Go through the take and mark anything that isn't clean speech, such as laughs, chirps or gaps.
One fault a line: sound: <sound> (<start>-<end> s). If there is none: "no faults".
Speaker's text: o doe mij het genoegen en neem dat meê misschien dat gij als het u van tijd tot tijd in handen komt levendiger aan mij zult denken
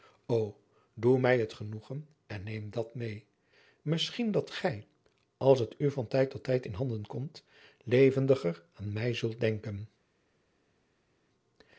no faults